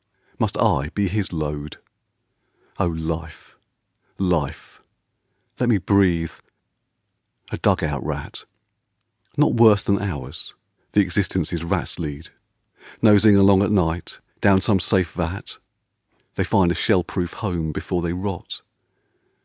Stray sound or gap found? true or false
false